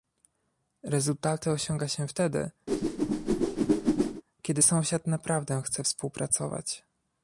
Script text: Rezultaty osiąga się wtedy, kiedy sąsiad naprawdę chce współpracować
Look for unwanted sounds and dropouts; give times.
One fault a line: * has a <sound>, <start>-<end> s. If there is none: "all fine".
* has a whoosh, 2.7-4.2 s